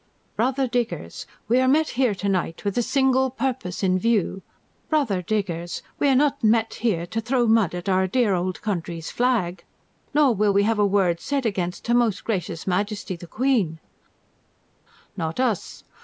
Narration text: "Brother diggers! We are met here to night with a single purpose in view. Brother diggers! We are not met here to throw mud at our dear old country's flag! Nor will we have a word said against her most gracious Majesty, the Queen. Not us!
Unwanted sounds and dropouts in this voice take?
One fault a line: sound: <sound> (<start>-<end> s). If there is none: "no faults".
no faults